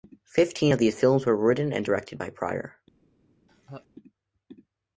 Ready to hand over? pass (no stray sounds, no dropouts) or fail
fail